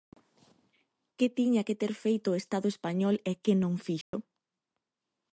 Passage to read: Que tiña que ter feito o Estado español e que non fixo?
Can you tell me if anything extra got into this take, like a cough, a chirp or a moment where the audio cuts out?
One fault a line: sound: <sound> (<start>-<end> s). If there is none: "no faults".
sound: dropout (4.0-4.1 s)